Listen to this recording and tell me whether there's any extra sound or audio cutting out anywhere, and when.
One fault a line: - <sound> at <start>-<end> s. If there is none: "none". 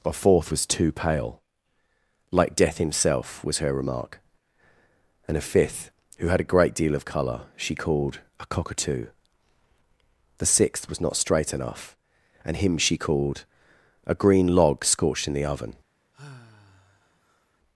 - sigh at 16.1-17.6 s